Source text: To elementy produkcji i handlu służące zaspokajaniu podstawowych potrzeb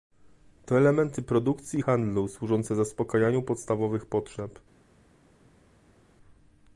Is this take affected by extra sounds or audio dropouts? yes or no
no